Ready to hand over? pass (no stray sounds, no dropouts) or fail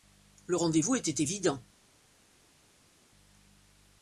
pass